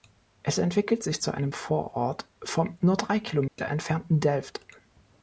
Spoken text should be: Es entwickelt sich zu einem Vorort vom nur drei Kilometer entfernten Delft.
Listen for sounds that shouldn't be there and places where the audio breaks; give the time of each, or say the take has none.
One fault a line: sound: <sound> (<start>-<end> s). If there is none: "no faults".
sound: dropout (3.5-3.6 s)